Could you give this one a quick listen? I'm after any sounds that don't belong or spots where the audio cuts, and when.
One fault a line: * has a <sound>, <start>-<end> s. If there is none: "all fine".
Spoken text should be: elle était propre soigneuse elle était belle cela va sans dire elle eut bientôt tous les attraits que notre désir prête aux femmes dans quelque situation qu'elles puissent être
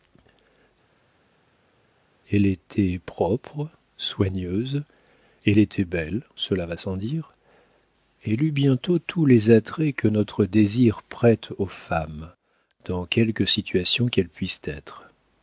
all fine